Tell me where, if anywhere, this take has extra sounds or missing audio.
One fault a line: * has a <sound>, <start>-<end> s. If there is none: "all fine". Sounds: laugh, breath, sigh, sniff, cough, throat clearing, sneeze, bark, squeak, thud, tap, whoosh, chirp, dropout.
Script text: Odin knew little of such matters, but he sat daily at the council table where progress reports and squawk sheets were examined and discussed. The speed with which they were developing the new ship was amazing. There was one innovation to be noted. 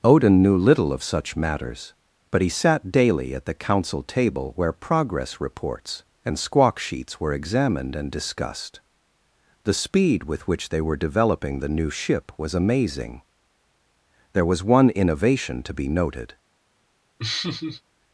* has a laugh, 17.2-17.8 s